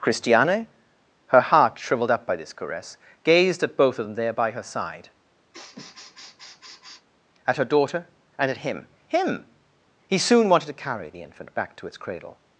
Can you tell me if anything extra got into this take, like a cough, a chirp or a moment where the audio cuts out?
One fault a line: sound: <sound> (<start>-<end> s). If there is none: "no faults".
sound: sniff (5.5-7.1 s)